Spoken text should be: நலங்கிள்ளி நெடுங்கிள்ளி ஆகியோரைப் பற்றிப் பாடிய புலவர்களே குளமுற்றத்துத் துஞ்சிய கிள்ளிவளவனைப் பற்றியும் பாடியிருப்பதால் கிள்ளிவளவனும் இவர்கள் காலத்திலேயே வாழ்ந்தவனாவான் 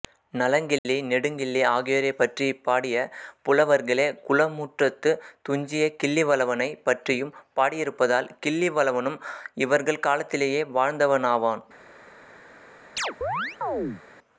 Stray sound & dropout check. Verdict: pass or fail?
fail